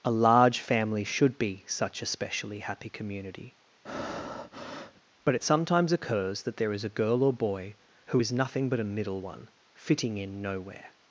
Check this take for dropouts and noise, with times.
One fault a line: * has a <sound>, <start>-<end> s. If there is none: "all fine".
* has a breath, 3.9-5.0 s